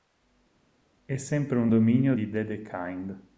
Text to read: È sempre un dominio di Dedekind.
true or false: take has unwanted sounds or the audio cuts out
false